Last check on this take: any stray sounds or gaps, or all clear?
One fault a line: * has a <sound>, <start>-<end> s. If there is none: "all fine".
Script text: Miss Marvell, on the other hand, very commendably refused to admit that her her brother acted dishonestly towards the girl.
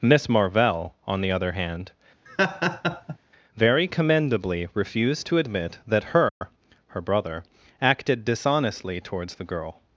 * has a laugh, 2.3-3.2 s
* has a dropout, 6.3-6.4 s